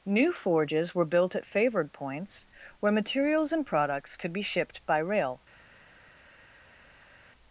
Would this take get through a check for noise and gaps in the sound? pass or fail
pass